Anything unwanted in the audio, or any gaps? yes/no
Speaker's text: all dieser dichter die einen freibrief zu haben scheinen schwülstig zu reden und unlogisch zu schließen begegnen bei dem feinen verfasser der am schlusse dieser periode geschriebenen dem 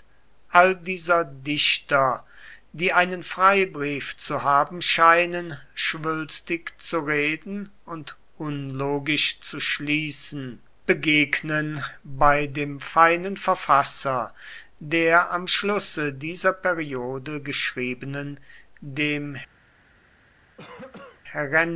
yes